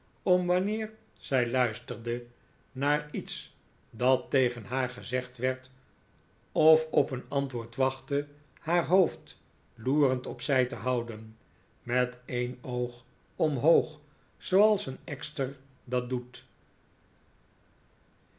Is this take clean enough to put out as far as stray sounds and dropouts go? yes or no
yes